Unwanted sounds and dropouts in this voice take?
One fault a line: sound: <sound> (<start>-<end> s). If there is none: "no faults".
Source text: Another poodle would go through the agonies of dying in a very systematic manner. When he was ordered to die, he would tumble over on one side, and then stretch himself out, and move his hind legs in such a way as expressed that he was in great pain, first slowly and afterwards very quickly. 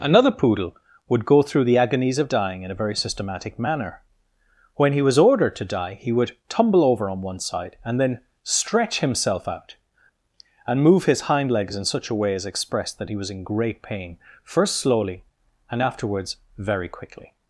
no faults